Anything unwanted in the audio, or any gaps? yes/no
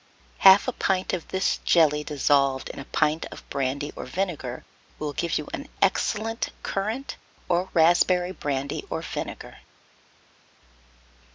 no